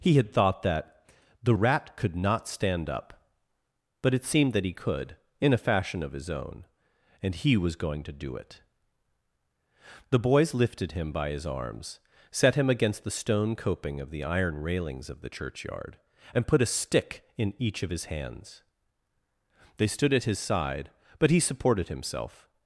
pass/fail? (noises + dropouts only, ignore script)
pass